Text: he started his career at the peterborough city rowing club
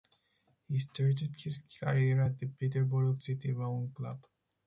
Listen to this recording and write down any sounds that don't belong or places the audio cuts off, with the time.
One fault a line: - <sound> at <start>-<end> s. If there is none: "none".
none